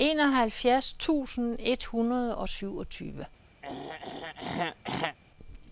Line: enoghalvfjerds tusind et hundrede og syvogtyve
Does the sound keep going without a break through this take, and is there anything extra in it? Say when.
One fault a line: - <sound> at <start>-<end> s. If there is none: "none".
- throat clearing at 3.6-5.2 s